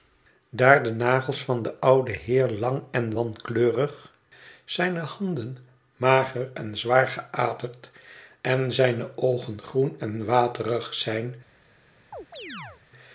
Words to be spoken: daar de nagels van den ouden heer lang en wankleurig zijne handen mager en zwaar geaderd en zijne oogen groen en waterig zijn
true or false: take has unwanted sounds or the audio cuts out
true